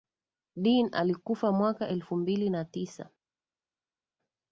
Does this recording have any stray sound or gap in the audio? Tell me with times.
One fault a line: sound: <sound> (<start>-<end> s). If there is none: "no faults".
no faults